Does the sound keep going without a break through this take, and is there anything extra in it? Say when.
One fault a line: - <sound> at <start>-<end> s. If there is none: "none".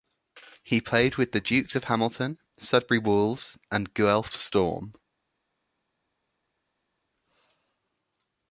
none